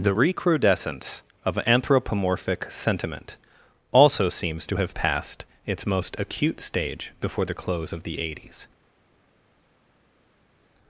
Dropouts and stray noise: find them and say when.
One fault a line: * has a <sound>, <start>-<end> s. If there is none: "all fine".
all fine